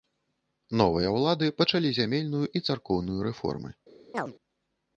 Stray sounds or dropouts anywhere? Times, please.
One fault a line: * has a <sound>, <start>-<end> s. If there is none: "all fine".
* has a chirp, 4.1-4.3 s